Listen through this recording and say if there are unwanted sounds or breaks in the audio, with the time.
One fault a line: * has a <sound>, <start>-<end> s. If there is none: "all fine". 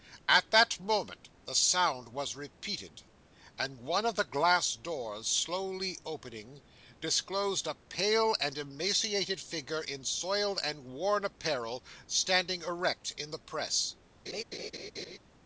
* has a laugh, 14.3-15.2 s